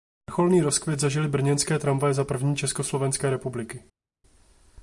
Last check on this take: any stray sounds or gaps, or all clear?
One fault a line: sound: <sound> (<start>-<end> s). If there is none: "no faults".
no faults